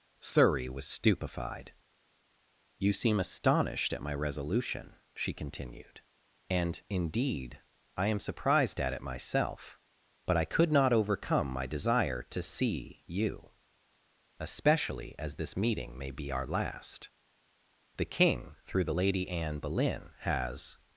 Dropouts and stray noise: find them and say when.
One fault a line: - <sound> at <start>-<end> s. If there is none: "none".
none